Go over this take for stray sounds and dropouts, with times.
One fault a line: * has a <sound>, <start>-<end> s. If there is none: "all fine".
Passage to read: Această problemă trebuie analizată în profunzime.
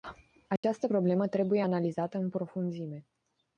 * has a dropout, 0.6-0.6 s